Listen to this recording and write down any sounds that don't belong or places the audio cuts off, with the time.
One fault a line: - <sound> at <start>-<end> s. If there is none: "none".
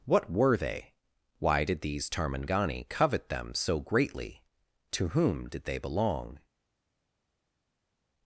none